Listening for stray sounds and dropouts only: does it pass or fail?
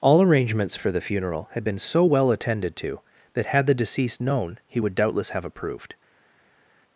pass